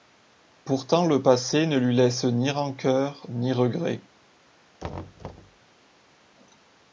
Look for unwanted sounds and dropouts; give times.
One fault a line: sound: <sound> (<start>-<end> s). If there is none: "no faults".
sound: thud (4.8-5.6 s)